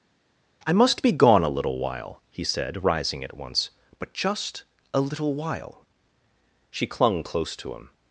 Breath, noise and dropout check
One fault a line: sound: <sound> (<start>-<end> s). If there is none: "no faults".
no faults